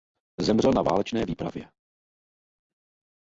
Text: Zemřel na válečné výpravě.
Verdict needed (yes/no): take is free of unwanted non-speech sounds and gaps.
yes